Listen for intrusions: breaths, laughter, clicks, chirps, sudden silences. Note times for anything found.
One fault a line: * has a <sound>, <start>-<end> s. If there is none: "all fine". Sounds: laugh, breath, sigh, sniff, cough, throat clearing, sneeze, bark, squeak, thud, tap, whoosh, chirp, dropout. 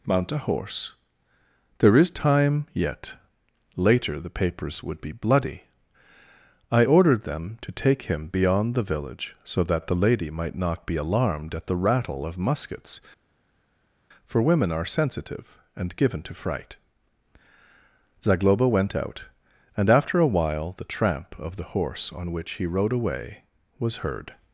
all fine